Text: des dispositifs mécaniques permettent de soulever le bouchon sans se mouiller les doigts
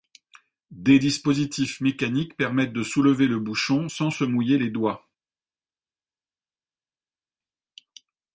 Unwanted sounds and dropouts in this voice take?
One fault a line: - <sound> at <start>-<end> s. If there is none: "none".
none